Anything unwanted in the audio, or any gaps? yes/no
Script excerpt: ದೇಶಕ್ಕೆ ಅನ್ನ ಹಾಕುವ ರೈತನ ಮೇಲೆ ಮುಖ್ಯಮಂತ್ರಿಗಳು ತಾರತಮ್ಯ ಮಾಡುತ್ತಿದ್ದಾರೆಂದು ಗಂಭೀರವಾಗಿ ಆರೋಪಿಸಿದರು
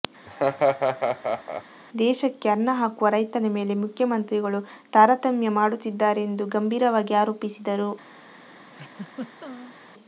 yes